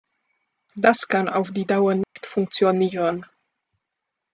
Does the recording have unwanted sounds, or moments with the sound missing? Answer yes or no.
yes